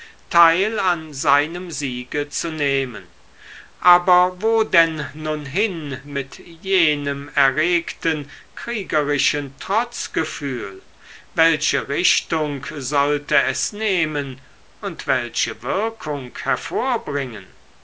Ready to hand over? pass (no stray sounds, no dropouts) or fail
pass